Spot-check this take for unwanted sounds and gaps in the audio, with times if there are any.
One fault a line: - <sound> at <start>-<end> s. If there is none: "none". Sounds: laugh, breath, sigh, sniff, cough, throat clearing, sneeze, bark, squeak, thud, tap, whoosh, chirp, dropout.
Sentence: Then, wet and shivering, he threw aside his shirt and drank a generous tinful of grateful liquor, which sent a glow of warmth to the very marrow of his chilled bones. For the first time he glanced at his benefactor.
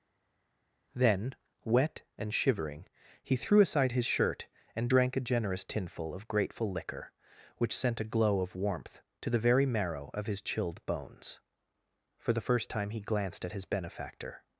none